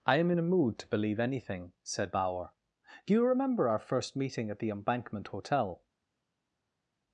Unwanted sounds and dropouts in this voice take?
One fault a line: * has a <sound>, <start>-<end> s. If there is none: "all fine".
all fine